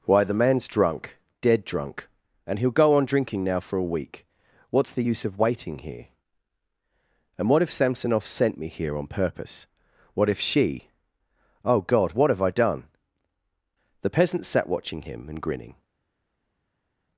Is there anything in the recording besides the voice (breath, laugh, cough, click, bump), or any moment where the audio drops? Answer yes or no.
no